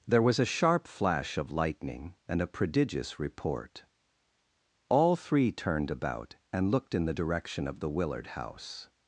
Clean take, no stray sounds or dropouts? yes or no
yes